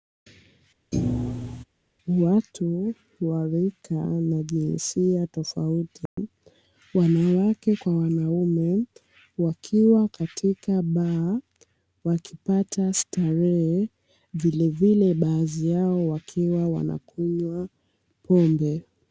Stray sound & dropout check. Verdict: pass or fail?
fail